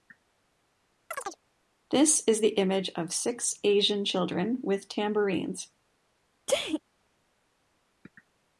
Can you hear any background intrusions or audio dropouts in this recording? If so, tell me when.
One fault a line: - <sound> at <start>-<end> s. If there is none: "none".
- chirp at 1.1-1.4 s
- sneeze at 6.5-6.8 s